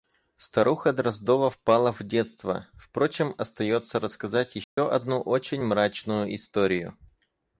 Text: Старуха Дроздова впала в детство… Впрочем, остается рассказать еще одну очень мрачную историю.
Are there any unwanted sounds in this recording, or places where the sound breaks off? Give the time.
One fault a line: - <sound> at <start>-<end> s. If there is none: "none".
- dropout at 4.6-4.8 s